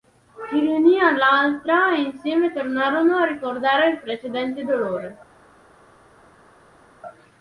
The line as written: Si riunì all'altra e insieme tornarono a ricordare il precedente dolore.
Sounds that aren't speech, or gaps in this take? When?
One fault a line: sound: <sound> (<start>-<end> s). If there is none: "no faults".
no faults